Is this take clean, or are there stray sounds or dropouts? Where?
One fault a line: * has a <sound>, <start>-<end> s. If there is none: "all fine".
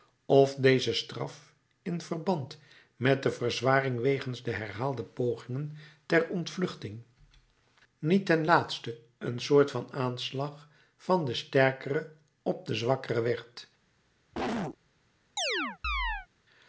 * has a cough, 14.3-14.8 s
* has a chirp, 15.4-16.3 s